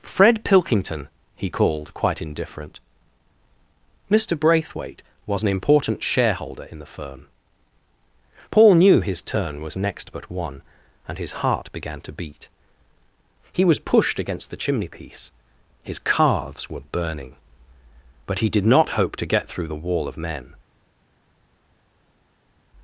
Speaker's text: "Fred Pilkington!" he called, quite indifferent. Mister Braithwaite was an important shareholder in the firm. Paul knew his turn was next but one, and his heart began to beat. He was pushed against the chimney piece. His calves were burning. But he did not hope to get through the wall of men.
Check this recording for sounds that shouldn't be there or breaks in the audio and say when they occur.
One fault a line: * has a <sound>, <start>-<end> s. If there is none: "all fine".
all fine